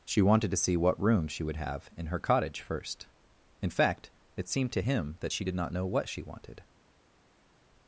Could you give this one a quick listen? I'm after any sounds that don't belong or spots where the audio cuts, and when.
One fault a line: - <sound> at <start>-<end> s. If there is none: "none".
none